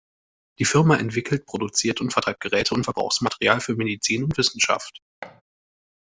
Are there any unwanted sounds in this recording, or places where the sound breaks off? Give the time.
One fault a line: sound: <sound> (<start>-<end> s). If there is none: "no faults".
sound: thud (5.2-5.4 s)